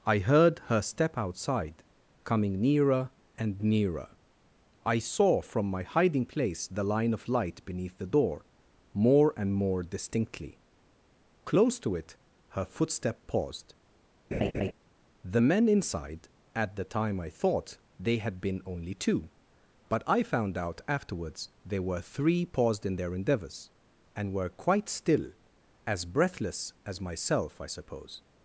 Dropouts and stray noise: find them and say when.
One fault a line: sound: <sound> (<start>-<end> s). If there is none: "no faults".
sound: laugh (14.3-14.7 s)